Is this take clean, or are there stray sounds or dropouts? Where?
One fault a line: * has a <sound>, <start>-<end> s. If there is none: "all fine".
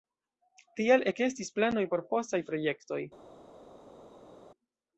all fine